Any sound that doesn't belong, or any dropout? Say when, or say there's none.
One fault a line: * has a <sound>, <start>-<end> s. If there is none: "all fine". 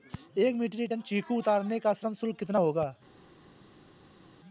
all fine